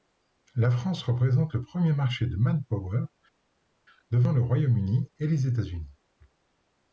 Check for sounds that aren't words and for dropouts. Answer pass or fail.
pass